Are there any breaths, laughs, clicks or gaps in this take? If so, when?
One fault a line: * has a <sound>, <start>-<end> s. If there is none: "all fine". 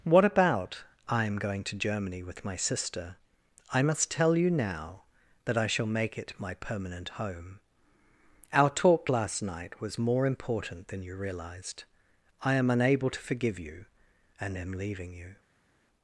all fine